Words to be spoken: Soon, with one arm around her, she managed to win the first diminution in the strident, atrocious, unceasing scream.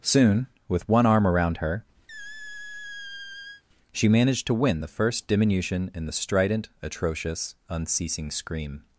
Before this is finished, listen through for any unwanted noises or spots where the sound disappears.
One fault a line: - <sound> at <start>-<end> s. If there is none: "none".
- squeak at 2.1-3.6 s